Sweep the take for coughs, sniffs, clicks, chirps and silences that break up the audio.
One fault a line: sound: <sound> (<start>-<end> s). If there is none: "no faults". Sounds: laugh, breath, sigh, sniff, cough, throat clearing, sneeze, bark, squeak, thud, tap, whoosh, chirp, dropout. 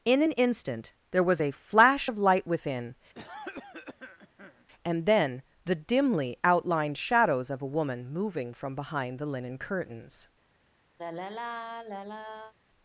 sound: cough (3.1-4.6 s)
sound: sigh (11.0-12.5 s)